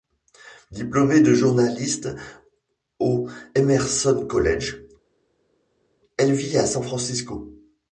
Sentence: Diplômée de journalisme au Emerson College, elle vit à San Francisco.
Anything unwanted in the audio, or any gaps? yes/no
no